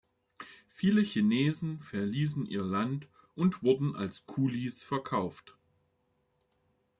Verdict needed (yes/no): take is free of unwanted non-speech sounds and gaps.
yes